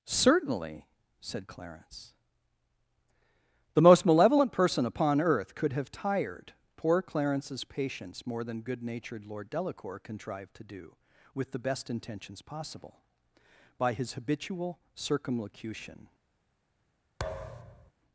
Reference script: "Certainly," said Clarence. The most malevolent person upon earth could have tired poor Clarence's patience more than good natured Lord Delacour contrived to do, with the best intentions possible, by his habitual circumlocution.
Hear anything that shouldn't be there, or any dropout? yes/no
yes